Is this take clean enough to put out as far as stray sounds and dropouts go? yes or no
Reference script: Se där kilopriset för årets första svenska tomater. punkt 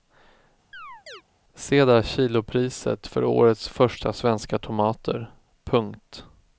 no